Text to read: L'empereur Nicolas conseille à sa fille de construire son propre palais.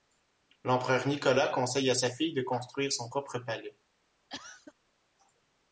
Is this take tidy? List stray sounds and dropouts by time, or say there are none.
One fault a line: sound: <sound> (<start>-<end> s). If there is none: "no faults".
sound: cough (4.3-4.7 s)